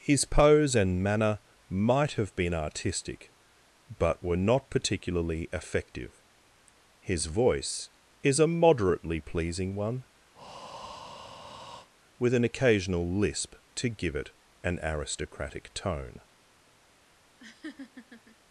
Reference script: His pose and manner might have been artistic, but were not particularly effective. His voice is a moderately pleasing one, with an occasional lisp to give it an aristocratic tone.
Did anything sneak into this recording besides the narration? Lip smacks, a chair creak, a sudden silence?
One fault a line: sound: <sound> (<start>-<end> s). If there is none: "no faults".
sound: breath (10.3-11.9 s)
sound: laugh (17.4-18.4 s)